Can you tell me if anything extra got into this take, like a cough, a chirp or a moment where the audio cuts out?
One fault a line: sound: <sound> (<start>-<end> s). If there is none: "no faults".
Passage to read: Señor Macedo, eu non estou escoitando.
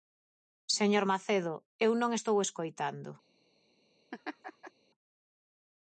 sound: laugh (4.1-4.7 s)